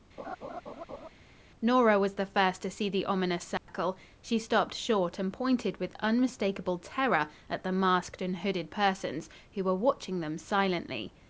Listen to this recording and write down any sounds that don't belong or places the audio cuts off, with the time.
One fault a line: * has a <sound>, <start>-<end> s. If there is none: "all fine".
* has a laugh, 0.2-1.1 s
* has a dropout, 3.6-3.7 s